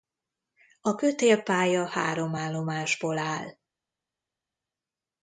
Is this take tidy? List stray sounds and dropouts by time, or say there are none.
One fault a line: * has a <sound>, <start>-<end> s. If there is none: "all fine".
all fine